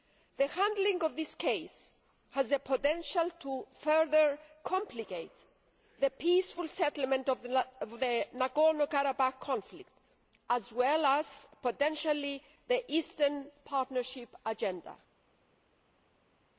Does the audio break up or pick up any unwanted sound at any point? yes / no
no